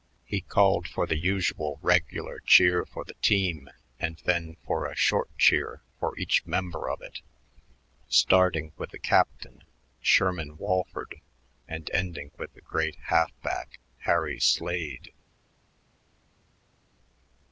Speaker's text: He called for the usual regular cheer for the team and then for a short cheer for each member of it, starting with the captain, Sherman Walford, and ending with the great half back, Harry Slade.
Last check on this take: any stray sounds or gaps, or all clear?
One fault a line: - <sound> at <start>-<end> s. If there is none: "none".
none